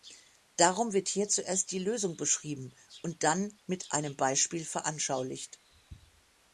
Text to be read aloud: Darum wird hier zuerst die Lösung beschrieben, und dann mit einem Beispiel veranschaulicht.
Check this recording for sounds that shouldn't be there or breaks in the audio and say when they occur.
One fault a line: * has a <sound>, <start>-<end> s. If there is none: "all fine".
all fine